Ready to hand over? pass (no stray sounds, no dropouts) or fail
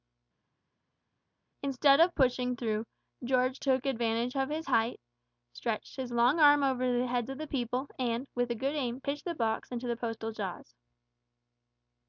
pass